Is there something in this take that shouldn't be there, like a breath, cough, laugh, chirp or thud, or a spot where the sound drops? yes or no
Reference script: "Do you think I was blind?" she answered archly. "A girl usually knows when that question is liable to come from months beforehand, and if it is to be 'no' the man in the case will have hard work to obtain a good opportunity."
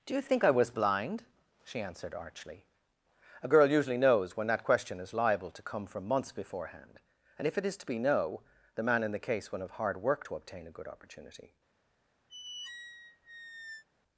yes